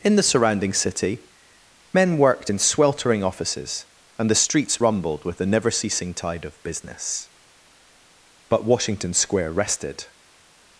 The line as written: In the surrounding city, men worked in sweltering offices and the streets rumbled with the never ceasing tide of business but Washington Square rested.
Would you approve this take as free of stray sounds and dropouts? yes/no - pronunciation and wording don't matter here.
yes